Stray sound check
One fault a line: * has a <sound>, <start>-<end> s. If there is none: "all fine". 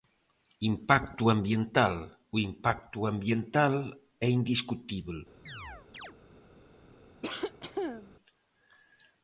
* has a chirp, 5.5-6.1 s
* has a cough, 7.2-8.1 s